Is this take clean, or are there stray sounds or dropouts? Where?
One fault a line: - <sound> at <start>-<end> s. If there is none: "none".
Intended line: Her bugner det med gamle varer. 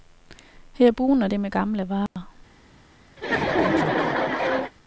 - dropout at 2.1-2.2 s
- laugh at 3.2-4.7 s